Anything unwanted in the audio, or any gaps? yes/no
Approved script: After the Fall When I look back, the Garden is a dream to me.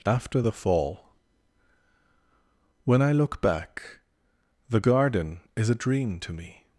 no